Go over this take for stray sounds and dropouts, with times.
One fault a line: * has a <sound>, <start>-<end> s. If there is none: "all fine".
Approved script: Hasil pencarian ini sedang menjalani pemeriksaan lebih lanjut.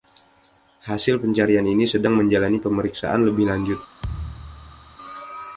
* has a thud, 4.0-5.0 s